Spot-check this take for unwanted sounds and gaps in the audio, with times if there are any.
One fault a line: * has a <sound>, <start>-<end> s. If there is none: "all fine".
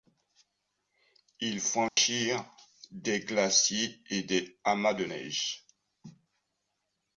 * has a dropout, 1.9-2.0 s